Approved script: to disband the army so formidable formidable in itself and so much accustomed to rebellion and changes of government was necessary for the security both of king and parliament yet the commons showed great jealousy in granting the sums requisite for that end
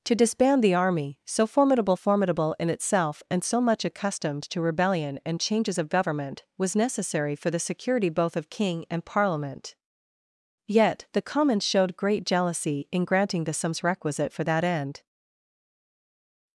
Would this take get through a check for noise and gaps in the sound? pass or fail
pass